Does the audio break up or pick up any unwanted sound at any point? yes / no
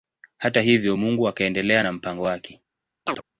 yes